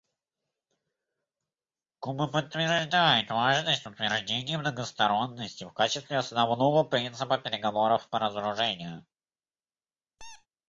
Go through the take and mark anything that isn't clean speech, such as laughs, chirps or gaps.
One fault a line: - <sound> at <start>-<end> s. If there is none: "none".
- squeak at 10.2-10.5 s